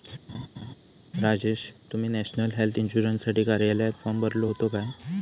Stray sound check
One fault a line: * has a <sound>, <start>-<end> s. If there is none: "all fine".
* has a laugh, 0.3-0.7 s